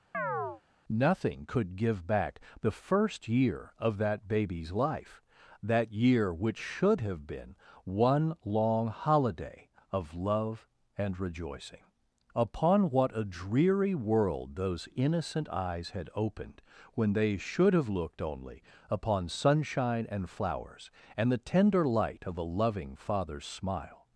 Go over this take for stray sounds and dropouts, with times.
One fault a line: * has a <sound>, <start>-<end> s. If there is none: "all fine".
* has a chirp, 0.1-0.6 s